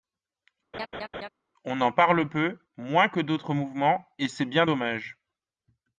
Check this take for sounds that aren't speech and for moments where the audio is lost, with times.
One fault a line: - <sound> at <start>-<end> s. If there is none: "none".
- laugh at 0.7-1.3 s